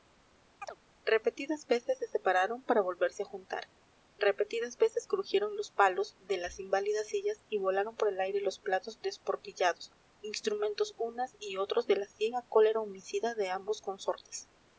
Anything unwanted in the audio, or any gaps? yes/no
yes